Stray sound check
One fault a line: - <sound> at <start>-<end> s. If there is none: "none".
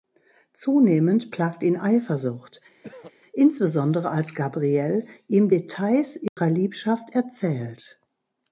- throat clearing at 2.8-3.1 s
- dropout at 6.3-6.4 s